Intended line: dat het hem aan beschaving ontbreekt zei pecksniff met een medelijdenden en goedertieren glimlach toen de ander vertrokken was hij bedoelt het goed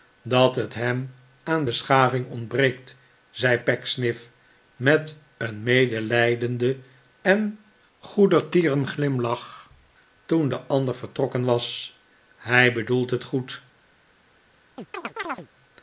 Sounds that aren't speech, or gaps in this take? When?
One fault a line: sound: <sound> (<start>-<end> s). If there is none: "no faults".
sound: chirp (14.8-15.5 s)